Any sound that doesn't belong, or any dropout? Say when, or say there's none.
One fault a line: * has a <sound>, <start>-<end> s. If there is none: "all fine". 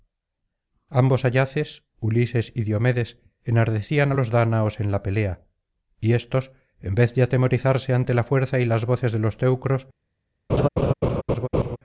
* has a laugh, 10.5-11.8 s